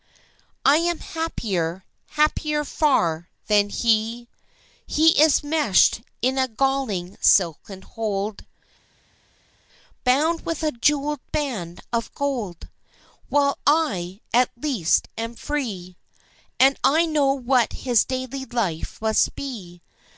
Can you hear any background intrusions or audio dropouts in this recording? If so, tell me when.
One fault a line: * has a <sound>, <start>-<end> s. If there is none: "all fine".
all fine